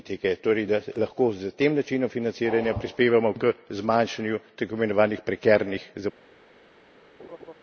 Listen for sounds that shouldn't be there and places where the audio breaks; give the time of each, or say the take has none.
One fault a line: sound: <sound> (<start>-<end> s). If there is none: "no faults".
sound: laugh (7.2-7.5 s)